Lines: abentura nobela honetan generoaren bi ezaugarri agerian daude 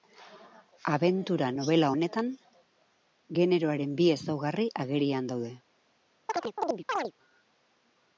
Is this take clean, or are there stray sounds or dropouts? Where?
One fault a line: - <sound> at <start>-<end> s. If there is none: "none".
- chirp at 6.3-7.1 s